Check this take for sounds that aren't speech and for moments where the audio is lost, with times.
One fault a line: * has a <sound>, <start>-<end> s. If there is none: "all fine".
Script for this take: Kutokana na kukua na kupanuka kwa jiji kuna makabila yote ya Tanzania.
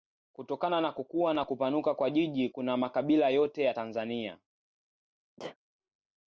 * has a sneeze, 5.4-5.6 s